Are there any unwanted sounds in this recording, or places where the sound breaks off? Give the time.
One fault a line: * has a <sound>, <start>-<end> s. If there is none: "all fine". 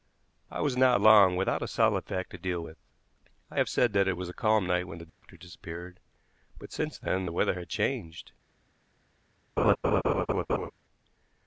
* has a dropout, 5.1-5.2 s
* has a laugh, 9.6-10.7 s